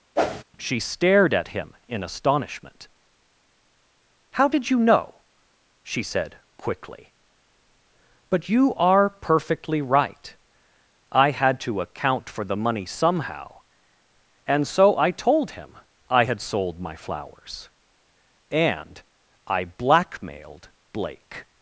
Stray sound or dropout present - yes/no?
yes